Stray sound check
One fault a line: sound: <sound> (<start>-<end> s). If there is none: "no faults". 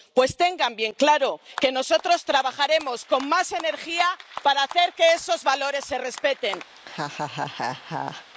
sound: laugh (6.8-8.3 s)